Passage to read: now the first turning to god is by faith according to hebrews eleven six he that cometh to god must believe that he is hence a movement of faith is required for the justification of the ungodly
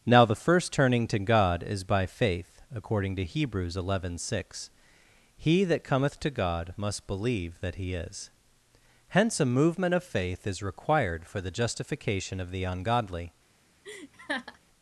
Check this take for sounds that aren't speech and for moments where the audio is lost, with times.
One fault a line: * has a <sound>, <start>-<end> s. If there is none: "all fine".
* has a laugh, 13.8-14.6 s